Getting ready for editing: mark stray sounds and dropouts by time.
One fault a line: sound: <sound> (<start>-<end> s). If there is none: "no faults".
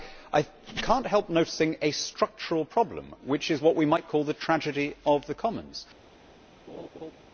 sound: laugh (6.7-7.1 s)